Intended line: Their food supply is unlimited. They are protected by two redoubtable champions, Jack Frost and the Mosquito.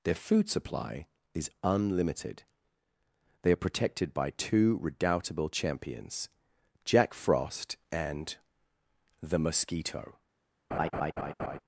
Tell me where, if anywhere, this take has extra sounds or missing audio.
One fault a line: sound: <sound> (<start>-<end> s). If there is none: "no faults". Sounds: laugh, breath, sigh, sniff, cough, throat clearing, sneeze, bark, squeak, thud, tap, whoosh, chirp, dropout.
sound: laugh (10.7-11.6 s)